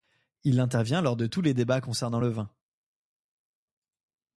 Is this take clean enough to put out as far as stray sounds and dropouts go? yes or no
yes